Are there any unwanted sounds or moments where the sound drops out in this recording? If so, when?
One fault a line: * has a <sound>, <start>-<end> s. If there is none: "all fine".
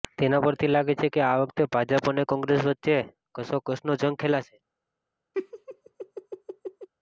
* has a laugh, 5.3-6.9 s